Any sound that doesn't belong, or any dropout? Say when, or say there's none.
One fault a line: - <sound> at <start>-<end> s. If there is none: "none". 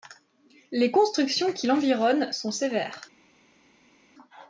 none